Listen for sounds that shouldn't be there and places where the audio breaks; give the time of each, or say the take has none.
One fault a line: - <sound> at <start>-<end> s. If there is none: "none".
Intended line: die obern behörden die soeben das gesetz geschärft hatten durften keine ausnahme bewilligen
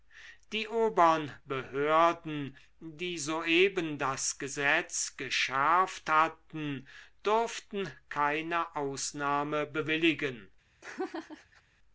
- laugh at 10.8-11.6 s